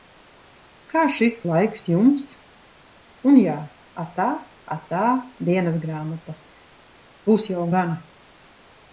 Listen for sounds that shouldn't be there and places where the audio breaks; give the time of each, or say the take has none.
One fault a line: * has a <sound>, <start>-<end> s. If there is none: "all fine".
all fine